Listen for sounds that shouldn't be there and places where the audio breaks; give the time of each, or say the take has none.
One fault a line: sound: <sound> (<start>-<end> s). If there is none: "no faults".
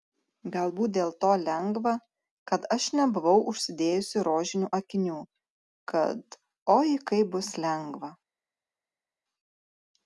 no faults